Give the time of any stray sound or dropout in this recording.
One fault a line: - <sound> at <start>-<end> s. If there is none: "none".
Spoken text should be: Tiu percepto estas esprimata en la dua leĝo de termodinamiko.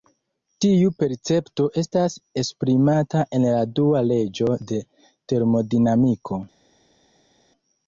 none